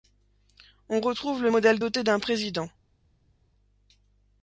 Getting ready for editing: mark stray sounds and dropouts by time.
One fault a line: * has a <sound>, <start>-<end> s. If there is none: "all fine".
all fine